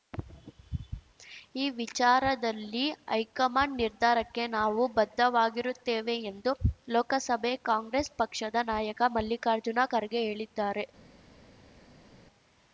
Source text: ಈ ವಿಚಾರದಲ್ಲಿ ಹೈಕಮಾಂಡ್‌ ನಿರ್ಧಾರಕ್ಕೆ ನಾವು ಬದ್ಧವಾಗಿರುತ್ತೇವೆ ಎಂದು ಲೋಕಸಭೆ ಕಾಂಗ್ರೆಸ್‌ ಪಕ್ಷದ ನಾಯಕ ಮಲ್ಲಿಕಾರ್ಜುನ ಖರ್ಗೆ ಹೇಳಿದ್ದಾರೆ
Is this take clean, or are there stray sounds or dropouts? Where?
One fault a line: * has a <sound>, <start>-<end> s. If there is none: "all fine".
all fine